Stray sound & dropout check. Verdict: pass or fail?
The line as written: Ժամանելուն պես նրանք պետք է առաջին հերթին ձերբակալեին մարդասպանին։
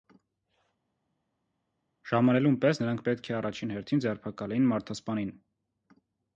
pass